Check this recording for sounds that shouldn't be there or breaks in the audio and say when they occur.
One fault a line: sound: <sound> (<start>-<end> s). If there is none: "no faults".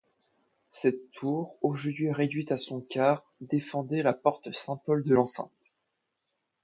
no faults